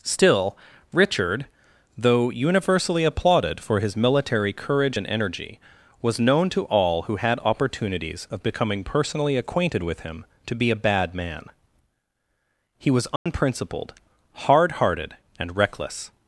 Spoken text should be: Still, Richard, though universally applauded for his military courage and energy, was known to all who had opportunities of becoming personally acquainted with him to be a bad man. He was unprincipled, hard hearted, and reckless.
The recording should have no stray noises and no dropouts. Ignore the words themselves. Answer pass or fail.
fail